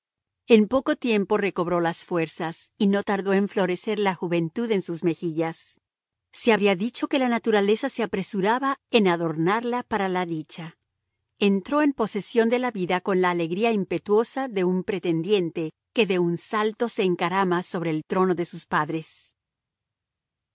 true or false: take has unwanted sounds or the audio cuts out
false